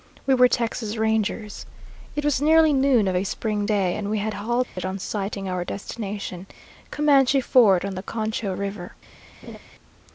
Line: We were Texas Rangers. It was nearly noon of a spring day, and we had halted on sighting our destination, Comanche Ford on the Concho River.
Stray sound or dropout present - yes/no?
yes